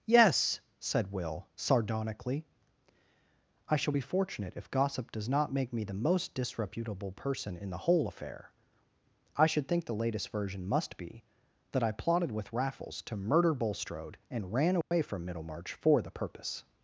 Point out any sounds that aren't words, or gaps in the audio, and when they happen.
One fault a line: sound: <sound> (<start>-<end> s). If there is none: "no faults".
sound: dropout (14.8-14.9 s)